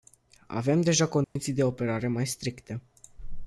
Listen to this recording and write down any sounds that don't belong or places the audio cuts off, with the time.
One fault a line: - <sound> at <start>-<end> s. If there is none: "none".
- dropout at 1.2-1.4 s